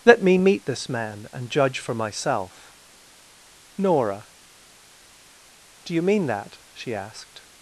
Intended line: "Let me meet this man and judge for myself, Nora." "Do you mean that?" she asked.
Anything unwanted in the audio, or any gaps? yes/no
no